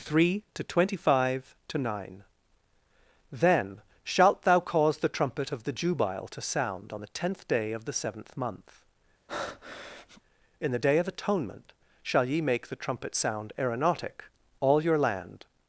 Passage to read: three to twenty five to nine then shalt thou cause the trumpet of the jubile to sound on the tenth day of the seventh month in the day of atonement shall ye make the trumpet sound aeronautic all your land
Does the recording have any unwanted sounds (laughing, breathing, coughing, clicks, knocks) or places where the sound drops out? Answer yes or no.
yes